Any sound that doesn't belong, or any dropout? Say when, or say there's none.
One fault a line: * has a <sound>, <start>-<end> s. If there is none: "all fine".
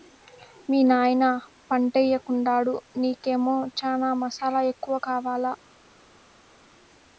all fine